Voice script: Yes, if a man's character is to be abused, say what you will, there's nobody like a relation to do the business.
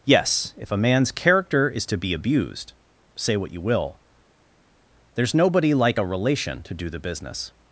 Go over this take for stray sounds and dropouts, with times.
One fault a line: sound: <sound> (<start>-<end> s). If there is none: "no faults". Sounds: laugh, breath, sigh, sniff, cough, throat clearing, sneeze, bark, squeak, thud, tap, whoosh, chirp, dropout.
no faults